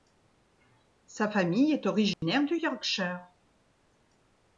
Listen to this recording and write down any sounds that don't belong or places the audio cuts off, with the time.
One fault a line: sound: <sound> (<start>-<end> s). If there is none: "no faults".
sound: dropout (2.1-2.2 s)